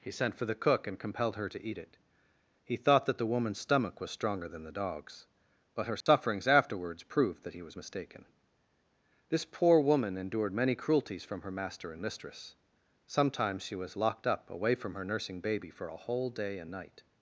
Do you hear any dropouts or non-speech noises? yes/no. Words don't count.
yes